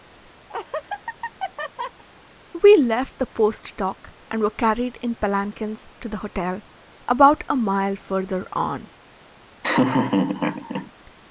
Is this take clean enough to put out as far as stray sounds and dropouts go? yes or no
no